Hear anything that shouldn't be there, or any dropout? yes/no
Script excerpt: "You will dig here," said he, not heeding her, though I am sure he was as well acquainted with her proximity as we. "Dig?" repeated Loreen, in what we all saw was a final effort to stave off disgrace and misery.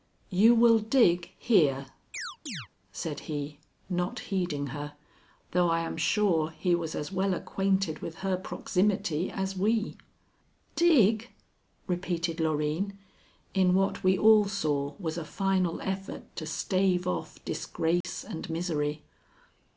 yes